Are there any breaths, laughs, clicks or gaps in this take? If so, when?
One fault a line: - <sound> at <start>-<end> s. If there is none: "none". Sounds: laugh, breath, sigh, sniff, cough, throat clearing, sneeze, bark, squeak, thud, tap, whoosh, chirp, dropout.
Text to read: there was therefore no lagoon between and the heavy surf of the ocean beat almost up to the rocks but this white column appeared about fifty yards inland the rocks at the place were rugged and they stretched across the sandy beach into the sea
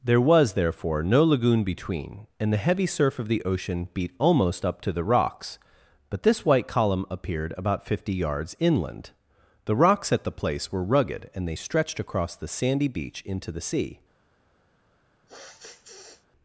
- sniff at 15.3-16.3 s